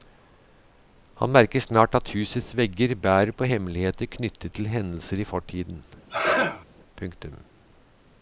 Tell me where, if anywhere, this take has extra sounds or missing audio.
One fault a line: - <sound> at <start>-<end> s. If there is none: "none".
- sneeze at 6.1-6.6 s